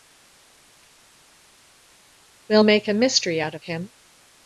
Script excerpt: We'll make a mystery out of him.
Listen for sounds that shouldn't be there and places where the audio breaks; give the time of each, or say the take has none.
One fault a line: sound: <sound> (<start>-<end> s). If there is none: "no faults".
no faults